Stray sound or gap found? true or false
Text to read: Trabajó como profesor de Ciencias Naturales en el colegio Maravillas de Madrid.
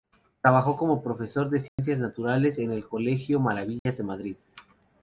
true